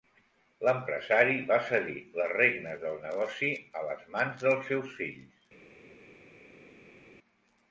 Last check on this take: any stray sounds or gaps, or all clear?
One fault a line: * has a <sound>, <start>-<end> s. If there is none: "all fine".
all fine